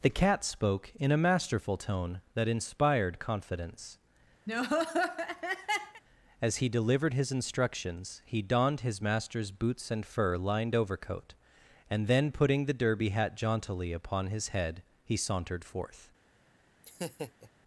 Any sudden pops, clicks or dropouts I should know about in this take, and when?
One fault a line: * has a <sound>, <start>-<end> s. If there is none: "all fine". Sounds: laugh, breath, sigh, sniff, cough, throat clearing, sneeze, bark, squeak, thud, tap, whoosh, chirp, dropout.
* has a laugh, 4.5-6.0 s
* has a laugh, 16.8-17.5 s